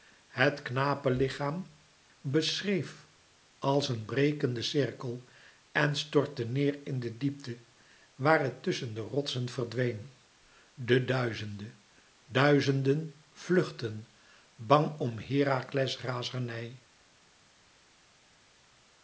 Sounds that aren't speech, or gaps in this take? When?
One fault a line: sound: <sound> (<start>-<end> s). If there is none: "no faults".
no faults